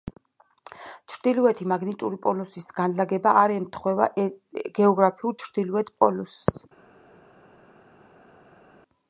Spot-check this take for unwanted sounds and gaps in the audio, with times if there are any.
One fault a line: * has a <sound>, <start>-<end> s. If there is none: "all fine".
all fine